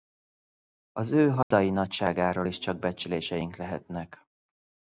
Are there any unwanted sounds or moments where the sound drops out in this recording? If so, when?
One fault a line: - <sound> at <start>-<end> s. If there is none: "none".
- dropout at 1.4-1.5 s